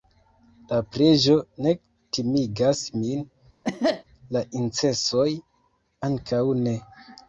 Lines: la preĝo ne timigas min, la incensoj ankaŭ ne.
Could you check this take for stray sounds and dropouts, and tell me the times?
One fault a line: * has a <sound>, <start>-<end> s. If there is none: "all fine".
* has a cough, 3.6-4.0 s